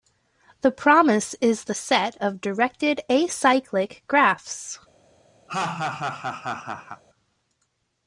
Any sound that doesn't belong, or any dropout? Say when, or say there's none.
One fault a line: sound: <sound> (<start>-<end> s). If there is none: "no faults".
sound: laugh (5.5-7.0 s)